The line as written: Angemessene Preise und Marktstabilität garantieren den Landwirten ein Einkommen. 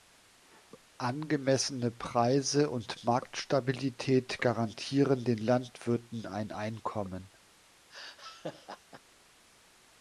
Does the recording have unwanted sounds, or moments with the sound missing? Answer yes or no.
yes